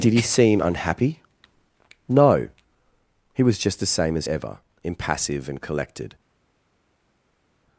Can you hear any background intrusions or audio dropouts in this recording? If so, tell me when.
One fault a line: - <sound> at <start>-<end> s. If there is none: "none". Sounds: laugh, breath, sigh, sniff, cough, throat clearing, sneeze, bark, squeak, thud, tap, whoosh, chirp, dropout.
none